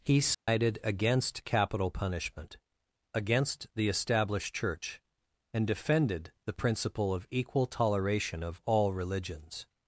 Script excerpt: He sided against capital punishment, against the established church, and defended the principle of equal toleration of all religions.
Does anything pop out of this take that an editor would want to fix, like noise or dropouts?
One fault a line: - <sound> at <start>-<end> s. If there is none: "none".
- dropout at 0.3-0.5 s